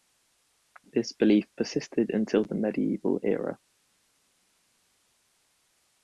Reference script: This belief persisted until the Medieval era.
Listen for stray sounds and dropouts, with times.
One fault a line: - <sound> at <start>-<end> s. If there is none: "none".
none